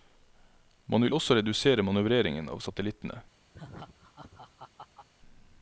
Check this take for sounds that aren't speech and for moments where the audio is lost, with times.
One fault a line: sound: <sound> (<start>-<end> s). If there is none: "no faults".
sound: laugh (3.5-5.1 s)